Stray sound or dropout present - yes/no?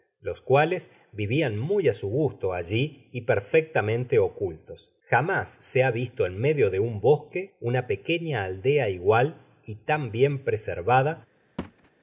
yes